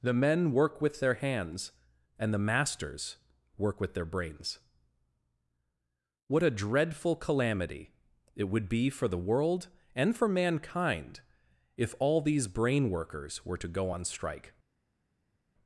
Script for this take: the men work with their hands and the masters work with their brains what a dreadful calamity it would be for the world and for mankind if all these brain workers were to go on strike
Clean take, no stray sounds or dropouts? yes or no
yes